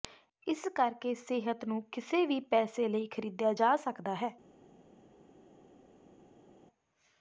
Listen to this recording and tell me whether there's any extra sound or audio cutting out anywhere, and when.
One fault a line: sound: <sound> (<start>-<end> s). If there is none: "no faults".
no faults